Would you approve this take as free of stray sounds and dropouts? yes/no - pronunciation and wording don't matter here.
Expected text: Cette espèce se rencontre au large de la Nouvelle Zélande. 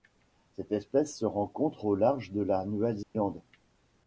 no